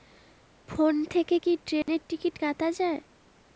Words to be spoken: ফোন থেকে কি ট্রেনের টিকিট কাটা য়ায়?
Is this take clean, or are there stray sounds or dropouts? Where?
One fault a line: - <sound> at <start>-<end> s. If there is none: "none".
- dropout at 1.8-1.9 s